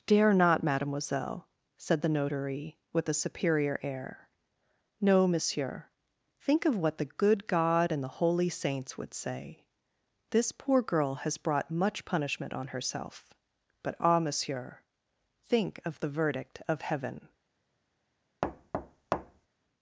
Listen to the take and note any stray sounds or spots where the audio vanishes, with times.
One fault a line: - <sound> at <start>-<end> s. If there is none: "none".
- thud at 18.4-19.5 s